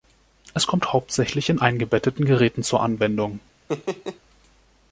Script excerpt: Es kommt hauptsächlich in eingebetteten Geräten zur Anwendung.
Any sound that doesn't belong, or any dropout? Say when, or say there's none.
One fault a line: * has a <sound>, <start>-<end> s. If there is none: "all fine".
* has a laugh, 3.7-4.2 s